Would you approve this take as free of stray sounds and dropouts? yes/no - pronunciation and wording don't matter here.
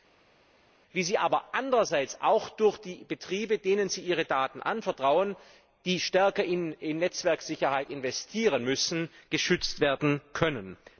yes